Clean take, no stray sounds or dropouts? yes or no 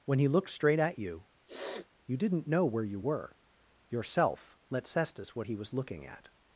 no